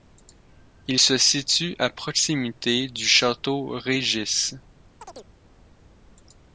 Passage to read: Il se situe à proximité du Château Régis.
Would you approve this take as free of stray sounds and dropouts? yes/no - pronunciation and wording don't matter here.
no